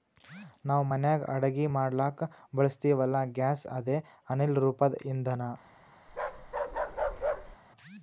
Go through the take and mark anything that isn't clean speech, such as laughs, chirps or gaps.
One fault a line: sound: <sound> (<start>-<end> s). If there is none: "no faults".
sound: bark (6.1-7.6 s)